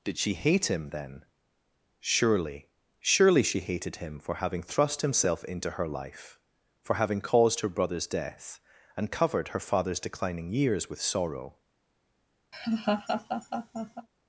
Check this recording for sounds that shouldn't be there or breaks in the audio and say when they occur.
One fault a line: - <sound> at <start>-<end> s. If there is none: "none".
- laugh at 12.5-14.1 s